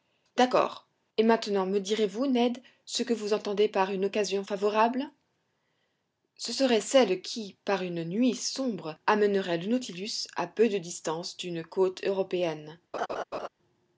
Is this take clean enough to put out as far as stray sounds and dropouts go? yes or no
no